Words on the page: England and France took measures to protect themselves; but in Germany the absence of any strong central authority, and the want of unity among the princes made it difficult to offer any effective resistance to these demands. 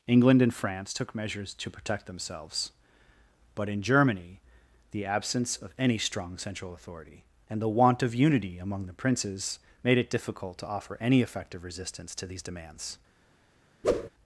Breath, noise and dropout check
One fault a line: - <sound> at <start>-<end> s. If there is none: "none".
- whoosh at 13.8-14.1 s